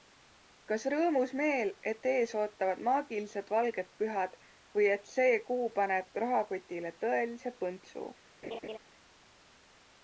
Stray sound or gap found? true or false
true